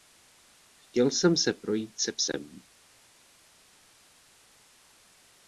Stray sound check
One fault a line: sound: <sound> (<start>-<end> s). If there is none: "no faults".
no faults